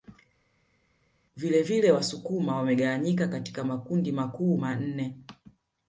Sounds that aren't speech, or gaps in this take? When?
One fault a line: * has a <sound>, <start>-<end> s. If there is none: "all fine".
all fine